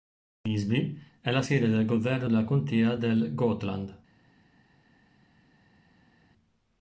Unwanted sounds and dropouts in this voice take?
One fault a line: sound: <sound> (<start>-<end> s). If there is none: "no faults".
no faults